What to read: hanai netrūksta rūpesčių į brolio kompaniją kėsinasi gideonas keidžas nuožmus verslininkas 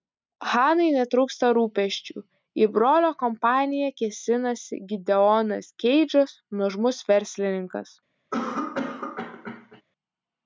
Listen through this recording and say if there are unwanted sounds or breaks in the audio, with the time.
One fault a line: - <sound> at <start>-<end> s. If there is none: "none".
- cough at 8.3-9.8 s